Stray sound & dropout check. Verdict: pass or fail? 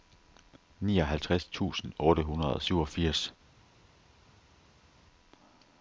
pass